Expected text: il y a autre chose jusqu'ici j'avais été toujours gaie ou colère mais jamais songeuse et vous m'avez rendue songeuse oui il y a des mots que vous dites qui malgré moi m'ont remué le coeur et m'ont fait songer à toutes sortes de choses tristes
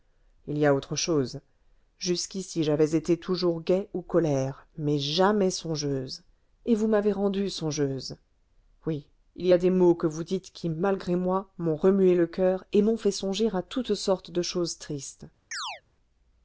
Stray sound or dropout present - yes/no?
yes